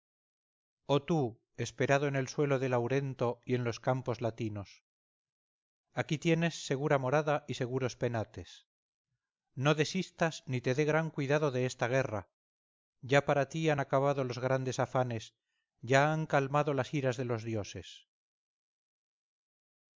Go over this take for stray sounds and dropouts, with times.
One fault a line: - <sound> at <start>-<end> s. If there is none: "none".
none